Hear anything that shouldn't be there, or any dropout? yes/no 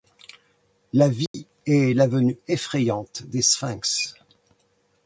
yes